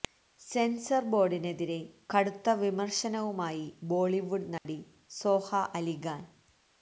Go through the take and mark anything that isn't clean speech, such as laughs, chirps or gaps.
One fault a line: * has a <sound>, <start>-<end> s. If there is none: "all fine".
* has a dropout, 4.6-4.7 s